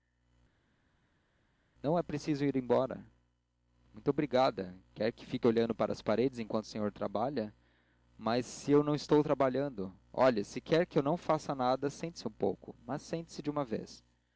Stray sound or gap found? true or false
false